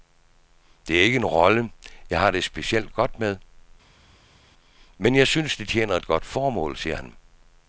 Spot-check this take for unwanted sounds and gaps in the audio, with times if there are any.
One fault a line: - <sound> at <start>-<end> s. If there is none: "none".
none